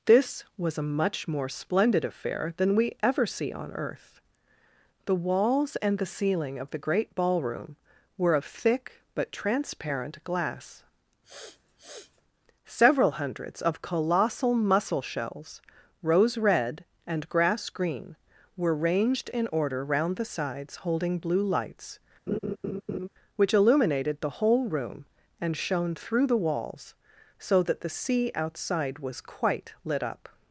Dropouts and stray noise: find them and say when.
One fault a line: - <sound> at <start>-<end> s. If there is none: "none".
- sniff at 11.2-12.2 s
- laugh at 22.3-23.1 s